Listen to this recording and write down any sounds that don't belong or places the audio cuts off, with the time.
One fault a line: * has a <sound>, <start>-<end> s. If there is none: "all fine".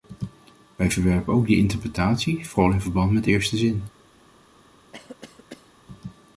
* has a cough, 4.9-5.7 s